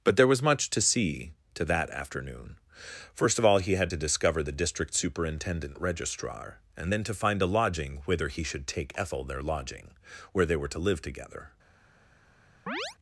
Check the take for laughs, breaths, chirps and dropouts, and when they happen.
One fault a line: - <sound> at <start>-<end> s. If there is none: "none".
- chirp at 12.7-13.0 s